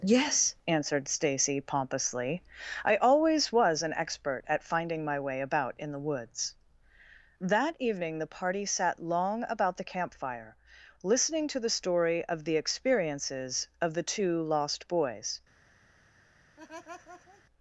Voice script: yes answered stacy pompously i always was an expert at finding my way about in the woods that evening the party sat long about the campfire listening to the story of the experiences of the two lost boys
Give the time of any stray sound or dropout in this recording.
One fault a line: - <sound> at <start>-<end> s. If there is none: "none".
- laugh at 16.6-17.4 s